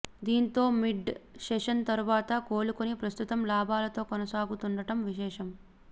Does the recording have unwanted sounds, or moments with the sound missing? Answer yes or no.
no